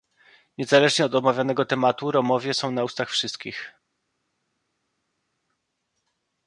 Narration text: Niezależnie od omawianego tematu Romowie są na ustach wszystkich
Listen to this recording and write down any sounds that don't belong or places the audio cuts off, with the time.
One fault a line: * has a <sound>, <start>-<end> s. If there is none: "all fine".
all fine